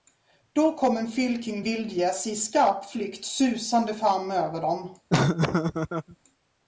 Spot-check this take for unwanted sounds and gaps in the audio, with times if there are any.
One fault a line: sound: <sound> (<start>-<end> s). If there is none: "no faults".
sound: laugh (5.1-6.2 s)